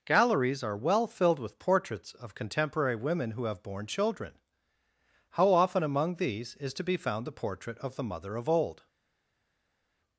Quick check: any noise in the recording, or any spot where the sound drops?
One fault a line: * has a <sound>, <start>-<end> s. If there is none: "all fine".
all fine